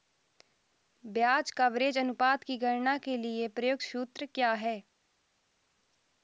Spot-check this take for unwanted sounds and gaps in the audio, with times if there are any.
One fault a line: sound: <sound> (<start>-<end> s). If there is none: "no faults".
no faults